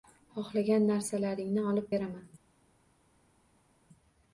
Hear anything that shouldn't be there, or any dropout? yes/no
no